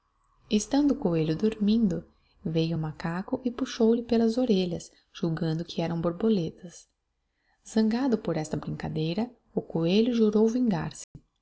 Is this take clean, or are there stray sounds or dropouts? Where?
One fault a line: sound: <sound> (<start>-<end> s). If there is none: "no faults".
sound: dropout (11.0-11.2 s)